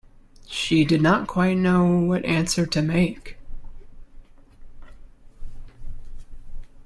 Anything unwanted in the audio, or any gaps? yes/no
no